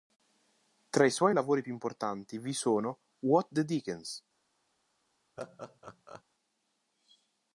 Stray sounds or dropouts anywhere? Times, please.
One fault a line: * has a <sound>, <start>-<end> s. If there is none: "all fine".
* has a laugh, 5.4-6.2 s